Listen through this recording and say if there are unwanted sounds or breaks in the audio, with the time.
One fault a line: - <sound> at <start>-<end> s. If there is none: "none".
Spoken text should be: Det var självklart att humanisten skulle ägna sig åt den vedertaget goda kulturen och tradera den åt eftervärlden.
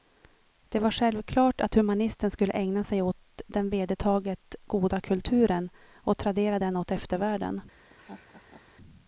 - laugh at 7.9-8.7 s